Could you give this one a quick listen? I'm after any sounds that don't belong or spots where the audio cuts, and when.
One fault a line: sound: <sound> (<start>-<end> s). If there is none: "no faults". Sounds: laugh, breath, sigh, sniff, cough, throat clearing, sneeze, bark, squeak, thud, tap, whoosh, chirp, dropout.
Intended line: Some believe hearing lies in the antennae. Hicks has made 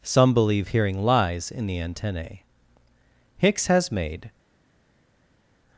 no faults